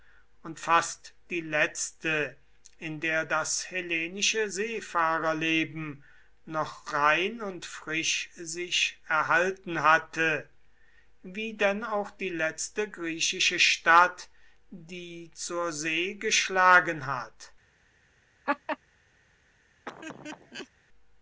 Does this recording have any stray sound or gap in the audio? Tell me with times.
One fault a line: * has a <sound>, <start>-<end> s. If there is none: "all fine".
* has a laugh, 18.5-18.8 s
* has a laugh, 19.9-20.7 s